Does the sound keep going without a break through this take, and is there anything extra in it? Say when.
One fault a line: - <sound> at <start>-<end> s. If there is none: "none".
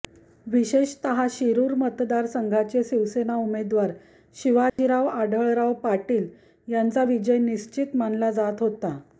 - dropout at 4.7-4.8 s